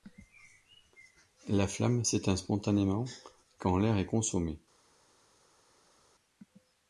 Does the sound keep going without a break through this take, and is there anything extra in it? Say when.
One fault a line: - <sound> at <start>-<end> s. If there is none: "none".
none